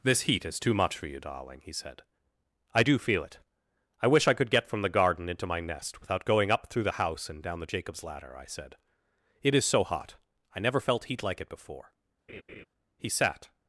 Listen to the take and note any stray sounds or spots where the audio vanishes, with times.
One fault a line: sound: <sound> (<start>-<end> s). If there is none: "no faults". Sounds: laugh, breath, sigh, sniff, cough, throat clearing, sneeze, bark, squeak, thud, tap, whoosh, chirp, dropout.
sound: laugh (12.3-12.7 s)